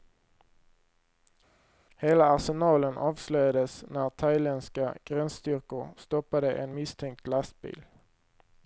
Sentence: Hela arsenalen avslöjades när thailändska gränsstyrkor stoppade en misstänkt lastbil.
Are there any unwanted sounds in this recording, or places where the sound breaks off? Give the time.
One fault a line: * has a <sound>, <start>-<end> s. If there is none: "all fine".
all fine